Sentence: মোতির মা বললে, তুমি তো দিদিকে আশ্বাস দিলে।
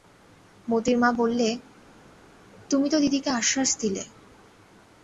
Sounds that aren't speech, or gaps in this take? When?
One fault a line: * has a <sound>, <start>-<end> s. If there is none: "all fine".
all fine